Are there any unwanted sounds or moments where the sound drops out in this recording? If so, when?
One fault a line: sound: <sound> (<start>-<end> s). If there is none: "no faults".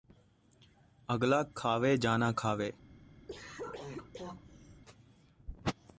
sound: cough (3.3-4.8 s)